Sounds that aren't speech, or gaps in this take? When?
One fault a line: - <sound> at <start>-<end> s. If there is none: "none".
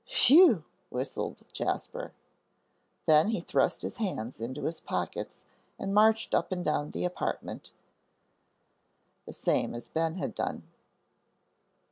none